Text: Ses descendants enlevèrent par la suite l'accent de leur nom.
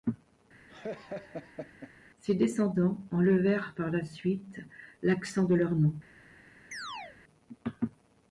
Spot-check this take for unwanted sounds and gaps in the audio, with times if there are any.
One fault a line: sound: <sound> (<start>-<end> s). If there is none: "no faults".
sound: laugh (0.7-1.9 s)
sound: chirp (6.7-7.2 s)